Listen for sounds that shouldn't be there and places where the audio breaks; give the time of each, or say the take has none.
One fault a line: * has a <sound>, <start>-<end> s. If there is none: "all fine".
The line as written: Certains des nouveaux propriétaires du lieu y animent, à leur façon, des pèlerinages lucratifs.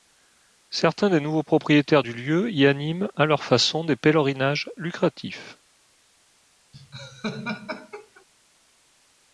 * has a laugh, 6.7-8.2 s